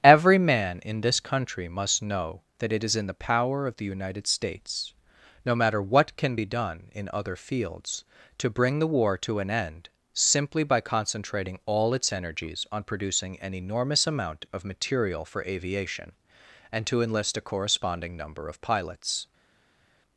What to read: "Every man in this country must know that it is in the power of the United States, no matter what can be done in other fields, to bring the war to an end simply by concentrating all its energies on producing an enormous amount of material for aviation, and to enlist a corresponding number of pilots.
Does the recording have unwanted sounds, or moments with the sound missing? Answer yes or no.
no